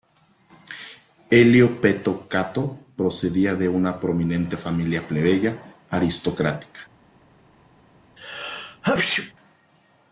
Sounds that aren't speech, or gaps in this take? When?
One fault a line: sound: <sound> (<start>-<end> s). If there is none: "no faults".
sound: sneeze (8.2-9.3 s)